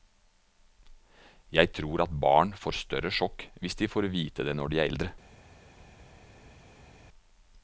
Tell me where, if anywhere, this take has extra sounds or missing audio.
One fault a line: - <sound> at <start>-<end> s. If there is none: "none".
none